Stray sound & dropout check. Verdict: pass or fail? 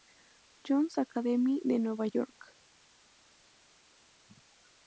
pass